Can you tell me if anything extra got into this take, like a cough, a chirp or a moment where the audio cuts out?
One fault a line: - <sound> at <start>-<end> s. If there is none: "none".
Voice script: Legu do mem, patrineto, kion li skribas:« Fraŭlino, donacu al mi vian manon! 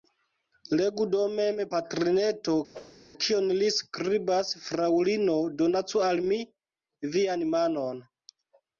- whoosh at 2.7-3.0 s